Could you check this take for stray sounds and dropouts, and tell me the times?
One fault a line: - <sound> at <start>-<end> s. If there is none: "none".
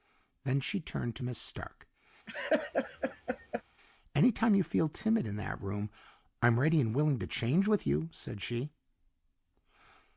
- laugh at 2.3-3.6 s